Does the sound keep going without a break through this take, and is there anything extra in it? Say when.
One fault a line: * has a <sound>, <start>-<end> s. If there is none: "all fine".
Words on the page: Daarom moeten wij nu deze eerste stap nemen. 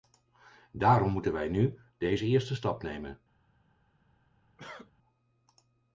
* has a cough, 4.6-4.9 s